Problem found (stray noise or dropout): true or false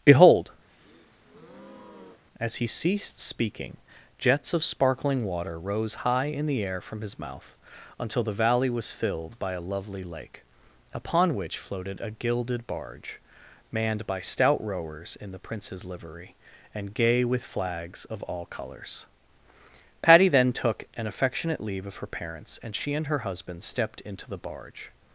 true